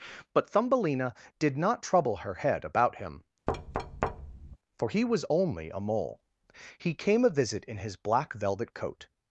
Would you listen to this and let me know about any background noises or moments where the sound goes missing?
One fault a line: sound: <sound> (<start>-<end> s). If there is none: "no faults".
sound: thud (3.5-4.6 s)